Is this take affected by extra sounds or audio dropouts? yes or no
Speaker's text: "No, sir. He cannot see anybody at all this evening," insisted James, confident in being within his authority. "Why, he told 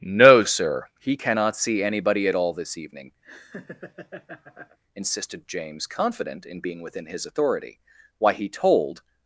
yes